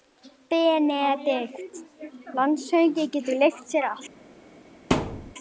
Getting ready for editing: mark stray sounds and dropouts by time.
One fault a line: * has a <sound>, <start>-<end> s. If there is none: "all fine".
* has a thud, 4.9-5.3 s